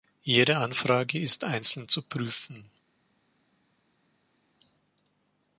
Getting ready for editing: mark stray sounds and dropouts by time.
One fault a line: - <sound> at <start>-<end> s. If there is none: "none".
none